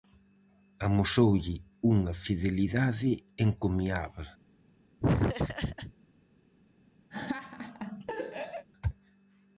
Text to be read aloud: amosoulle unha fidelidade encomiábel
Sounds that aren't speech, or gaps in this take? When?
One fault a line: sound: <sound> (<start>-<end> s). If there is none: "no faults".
sound: laugh (5.0-5.9 s)
sound: laugh (7.1-8.7 s)